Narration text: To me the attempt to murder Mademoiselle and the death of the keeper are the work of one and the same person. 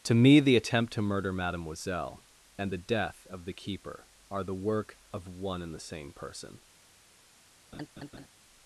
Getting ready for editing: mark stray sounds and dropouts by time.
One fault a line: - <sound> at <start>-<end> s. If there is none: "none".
- laugh at 7.7-8.3 s